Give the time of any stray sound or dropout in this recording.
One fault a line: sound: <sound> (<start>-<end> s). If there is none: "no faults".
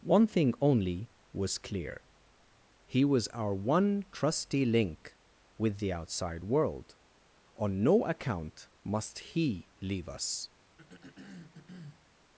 sound: throat clearing (10.8-12.1 s)